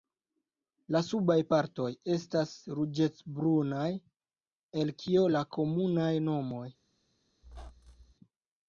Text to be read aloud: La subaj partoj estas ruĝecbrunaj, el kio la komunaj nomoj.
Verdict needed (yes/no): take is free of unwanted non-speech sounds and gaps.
no